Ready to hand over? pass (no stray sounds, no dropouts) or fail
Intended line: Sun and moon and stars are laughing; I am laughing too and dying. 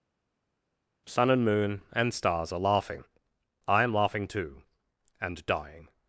pass